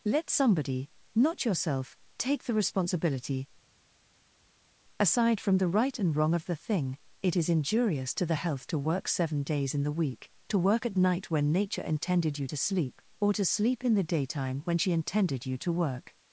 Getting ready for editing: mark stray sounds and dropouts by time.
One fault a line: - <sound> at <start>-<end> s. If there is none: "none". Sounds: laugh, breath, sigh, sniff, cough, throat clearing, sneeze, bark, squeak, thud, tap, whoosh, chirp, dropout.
none